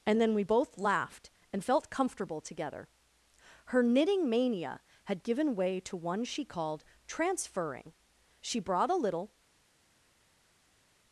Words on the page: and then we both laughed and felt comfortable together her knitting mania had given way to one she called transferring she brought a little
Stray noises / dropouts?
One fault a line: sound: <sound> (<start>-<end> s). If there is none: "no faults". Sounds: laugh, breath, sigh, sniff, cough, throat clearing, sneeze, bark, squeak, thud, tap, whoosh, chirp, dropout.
no faults